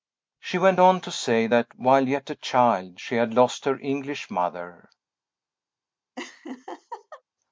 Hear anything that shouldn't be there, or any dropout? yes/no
yes